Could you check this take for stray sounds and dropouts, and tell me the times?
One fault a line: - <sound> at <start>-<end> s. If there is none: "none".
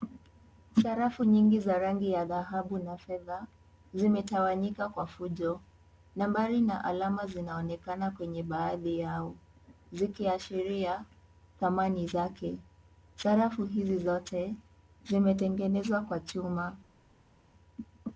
none